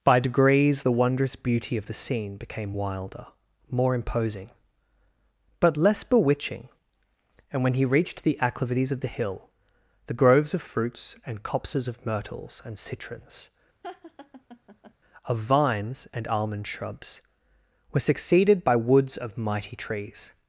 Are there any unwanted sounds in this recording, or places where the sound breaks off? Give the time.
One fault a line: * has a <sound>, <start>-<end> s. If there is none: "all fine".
* has a laugh, 13.8-14.9 s